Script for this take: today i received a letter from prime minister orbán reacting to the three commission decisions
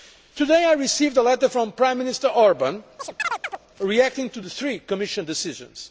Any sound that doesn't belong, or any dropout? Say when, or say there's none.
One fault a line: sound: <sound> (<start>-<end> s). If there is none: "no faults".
sound: chirp (3.0-3.6 s)